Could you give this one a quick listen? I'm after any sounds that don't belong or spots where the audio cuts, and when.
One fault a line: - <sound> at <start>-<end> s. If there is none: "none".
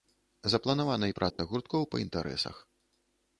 - dropout at 1.3-1.4 s